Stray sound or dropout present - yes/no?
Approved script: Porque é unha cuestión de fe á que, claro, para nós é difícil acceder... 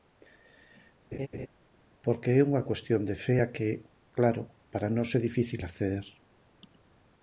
yes